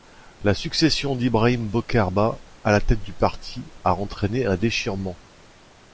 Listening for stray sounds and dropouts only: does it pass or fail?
pass